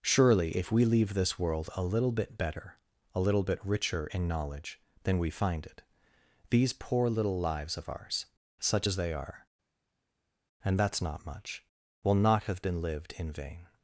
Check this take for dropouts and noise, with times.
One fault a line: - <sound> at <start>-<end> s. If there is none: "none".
none